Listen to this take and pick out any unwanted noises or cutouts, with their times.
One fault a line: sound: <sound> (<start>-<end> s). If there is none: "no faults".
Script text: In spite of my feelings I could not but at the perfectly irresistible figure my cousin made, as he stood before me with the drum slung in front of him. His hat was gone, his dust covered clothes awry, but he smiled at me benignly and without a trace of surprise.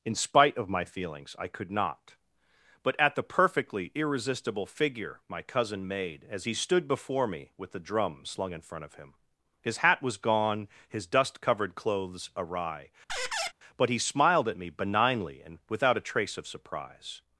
sound: squeak (13.1-13.5 s)